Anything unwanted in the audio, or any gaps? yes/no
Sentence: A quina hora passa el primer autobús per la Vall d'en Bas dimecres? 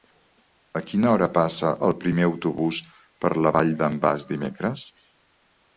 no